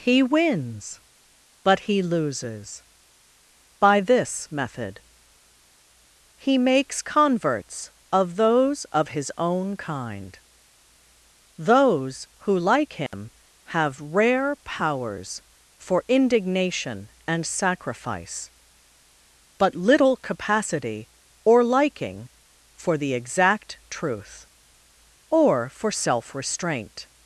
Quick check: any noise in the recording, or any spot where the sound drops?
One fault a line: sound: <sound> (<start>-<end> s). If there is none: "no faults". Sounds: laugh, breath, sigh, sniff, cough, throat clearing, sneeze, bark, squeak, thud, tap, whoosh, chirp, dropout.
sound: dropout (13.1-13.1 s)